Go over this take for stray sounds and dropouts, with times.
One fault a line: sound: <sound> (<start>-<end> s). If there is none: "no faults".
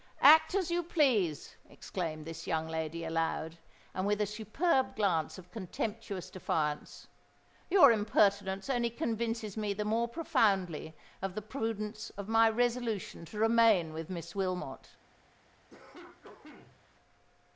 sound: cough (15.7-16.8 s)